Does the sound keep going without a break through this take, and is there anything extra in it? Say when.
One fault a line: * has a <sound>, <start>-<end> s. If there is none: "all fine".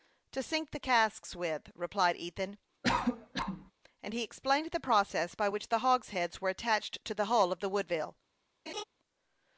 * has a cough, 2.8-3.7 s
* has a laugh, 8.7-8.8 s